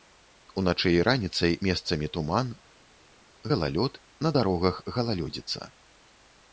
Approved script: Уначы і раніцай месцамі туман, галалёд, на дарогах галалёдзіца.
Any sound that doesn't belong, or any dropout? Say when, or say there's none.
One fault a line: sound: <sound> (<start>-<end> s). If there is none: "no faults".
no faults